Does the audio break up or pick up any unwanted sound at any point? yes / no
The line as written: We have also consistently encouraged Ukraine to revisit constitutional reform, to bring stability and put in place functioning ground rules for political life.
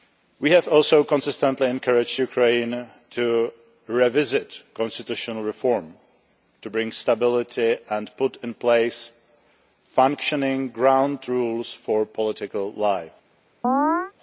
yes